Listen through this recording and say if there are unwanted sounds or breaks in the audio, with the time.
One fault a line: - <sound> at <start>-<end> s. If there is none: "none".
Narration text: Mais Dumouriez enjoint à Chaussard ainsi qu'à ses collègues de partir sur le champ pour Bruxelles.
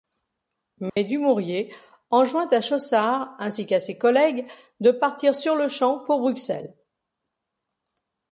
- dropout at 0.9-1.0 s